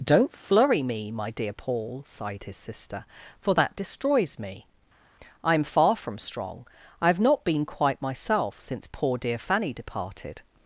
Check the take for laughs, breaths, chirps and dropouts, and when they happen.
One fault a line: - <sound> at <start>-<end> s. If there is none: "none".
none